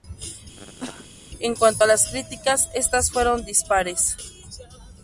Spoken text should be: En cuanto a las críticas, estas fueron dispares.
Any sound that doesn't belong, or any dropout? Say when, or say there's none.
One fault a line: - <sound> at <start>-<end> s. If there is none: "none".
- cough at 0.6-1.1 s